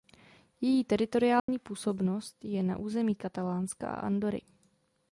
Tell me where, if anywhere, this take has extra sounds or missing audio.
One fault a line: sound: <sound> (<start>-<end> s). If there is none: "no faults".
sound: dropout (1.4-1.5 s)